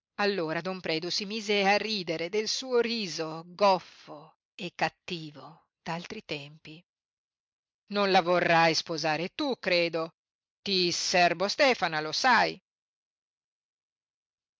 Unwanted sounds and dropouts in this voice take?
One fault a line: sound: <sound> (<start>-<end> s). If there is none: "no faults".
no faults